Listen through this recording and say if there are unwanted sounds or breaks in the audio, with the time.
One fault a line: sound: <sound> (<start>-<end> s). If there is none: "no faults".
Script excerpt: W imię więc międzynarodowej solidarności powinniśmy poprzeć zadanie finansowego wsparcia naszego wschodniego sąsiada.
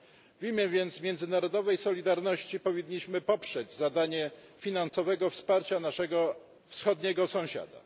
sound: dropout (4.9-4.9 s)